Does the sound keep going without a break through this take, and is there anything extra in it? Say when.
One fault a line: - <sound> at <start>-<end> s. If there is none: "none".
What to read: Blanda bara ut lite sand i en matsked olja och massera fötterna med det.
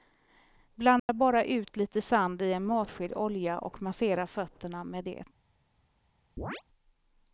- dropout at 1.0-1.1 s
- chirp at 6.4-6.6 s